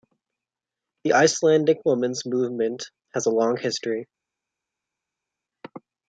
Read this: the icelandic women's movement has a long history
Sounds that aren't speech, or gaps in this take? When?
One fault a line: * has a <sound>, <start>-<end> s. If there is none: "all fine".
all fine